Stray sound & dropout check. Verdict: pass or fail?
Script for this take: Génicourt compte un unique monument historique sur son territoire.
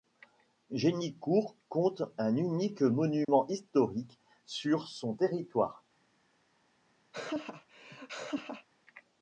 fail